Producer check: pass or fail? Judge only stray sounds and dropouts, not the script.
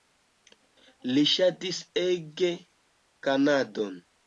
pass